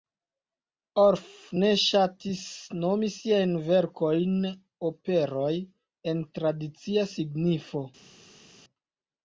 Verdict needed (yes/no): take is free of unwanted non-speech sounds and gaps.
yes